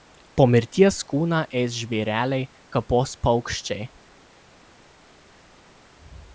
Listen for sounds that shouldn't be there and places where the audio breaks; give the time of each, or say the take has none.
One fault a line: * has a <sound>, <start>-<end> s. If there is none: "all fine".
all fine